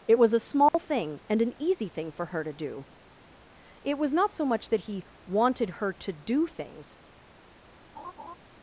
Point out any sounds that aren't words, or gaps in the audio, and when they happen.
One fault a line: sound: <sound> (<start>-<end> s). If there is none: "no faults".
sound: dropout (0.7-0.7 s)
sound: laugh (7.9-8.4 s)